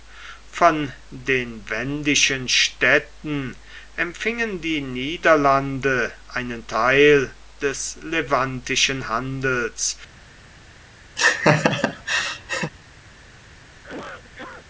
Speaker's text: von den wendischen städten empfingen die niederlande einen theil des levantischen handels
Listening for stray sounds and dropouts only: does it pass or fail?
fail